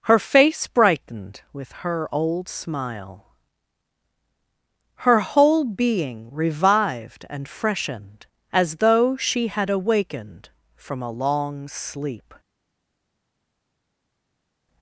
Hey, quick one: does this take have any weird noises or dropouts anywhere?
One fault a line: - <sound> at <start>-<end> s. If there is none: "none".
none